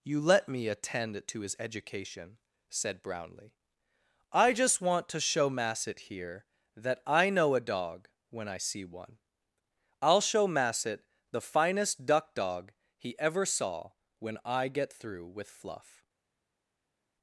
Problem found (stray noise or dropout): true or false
false